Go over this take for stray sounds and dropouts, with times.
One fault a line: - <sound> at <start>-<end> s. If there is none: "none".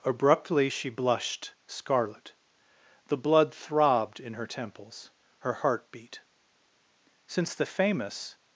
none